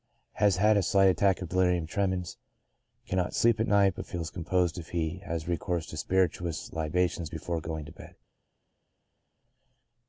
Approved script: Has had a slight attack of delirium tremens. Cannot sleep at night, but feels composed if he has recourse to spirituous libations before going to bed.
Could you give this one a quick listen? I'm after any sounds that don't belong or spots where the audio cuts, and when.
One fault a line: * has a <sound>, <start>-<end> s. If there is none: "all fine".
all fine